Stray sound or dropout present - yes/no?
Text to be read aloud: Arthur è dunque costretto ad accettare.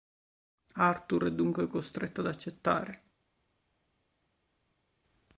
no